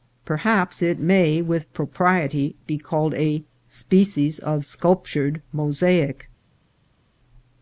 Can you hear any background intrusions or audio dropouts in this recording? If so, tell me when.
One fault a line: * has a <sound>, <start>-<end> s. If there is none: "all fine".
all fine